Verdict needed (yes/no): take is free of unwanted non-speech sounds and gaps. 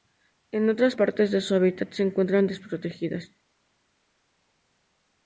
yes